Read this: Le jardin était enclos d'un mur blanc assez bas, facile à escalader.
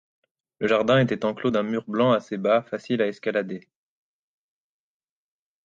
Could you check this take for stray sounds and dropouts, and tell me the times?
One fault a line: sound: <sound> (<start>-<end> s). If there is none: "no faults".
no faults